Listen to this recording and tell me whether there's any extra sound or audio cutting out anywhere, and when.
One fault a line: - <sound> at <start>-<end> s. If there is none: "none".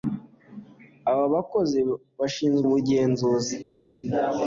none